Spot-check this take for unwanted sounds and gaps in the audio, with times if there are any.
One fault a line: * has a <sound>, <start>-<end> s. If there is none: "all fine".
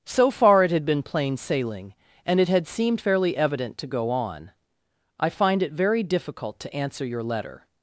all fine